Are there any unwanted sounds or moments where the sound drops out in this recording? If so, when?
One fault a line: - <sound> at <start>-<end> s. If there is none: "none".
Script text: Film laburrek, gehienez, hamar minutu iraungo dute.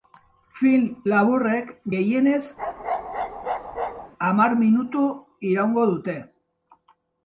- bark at 2.6-4.1 s